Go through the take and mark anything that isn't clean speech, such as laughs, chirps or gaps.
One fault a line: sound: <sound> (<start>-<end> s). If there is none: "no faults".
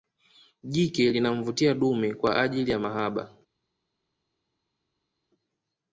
no faults